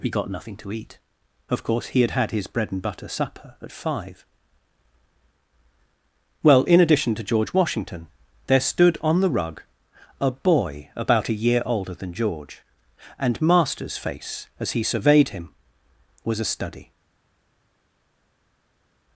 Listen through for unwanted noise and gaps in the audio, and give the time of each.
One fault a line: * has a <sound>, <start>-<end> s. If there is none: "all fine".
all fine